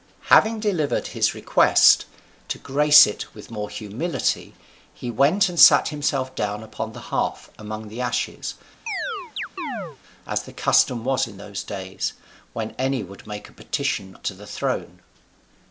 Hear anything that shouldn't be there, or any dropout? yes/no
yes